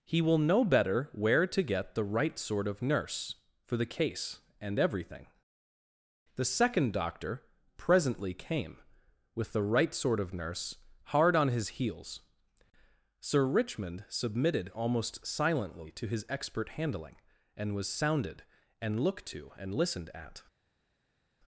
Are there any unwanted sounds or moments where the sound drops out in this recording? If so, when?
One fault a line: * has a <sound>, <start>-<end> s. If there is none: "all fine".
all fine